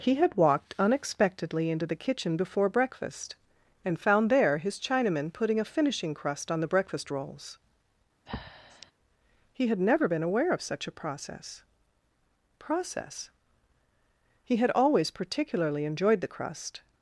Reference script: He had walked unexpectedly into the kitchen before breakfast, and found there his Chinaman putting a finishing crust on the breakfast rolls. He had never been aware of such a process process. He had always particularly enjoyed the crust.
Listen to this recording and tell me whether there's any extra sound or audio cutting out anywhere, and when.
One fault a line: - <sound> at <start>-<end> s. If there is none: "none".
- breath at 8.3-8.9 s